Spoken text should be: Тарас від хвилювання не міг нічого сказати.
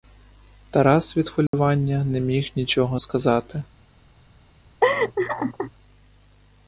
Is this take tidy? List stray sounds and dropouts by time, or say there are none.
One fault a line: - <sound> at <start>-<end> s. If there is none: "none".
- dropout at 1.5-1.5 s
- laugh at 4.8-5.7 s